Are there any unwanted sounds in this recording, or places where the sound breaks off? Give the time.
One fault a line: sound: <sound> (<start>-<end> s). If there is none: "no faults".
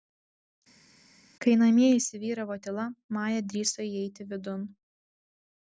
no faults